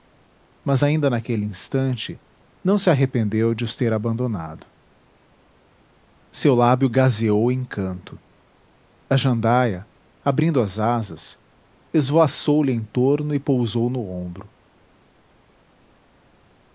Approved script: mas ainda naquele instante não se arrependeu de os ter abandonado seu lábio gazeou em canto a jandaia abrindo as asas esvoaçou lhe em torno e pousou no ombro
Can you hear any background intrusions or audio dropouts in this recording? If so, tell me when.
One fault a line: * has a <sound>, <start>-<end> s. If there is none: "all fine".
all fine